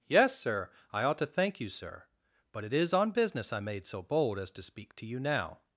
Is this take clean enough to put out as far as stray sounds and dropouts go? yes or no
yes